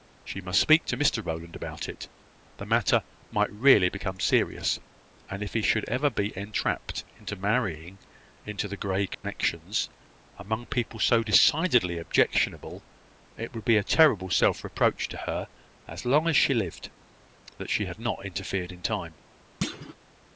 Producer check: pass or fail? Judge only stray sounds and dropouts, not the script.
fail